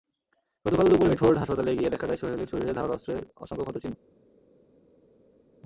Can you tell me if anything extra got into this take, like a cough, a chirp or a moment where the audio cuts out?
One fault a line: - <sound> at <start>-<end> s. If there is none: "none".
none